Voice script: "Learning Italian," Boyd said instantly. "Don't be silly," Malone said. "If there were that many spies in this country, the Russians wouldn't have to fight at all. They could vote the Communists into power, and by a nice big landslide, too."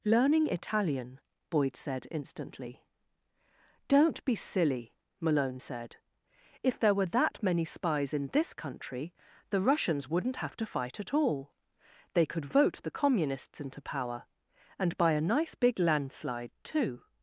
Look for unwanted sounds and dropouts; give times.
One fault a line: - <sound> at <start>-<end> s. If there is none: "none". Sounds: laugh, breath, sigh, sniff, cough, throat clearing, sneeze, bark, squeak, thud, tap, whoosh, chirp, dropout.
none